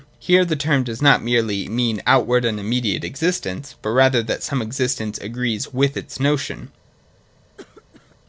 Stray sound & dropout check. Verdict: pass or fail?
fail